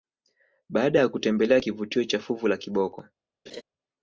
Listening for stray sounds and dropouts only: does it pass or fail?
fail